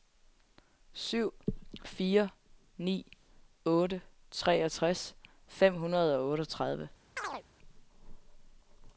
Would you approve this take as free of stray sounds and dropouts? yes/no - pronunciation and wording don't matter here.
no